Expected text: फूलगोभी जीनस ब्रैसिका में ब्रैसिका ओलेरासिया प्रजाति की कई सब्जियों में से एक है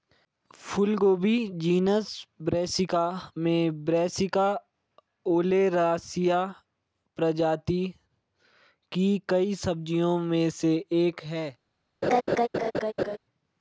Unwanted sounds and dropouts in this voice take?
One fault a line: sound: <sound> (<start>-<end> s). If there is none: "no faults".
sound: laugh (12.0-13.2 s)